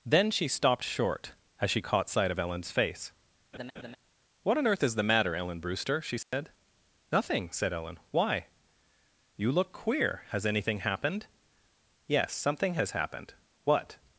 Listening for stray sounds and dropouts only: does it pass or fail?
fail